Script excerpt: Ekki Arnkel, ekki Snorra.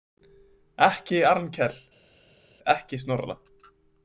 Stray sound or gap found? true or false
false